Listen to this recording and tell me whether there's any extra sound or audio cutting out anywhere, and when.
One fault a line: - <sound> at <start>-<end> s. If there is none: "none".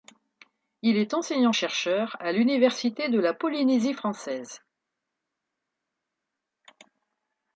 none